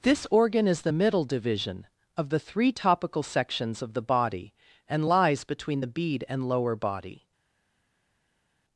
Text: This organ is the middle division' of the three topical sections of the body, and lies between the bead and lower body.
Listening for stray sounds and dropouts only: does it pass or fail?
pass